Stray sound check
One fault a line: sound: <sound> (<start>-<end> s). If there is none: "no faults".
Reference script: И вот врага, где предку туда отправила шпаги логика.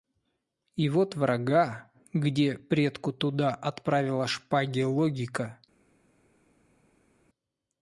no faults